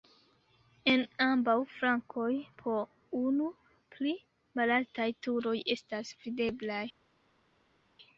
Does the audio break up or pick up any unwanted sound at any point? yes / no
no